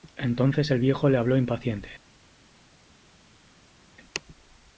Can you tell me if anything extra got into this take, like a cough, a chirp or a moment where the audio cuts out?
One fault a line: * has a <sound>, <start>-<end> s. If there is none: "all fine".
all fine